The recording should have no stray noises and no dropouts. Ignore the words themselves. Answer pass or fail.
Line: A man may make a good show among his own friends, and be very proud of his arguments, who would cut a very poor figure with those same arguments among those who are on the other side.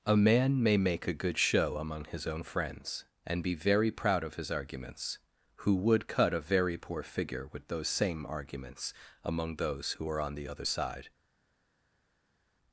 pass